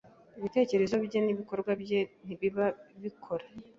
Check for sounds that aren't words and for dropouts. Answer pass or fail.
pass